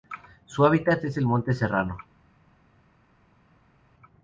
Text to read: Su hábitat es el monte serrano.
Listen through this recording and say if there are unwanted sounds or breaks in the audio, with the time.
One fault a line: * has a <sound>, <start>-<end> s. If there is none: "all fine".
all fine